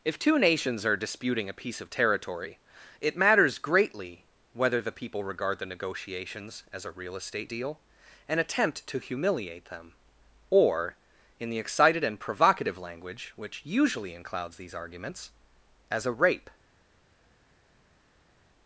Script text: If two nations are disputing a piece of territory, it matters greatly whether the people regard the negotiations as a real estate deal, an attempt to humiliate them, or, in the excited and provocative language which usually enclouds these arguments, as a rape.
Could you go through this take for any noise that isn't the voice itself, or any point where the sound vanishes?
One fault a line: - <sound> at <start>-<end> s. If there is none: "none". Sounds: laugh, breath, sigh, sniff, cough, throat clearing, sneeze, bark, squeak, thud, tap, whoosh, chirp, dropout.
none